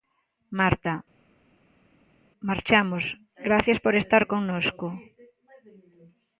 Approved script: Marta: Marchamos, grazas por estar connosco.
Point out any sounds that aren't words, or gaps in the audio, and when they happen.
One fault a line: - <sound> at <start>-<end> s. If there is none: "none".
none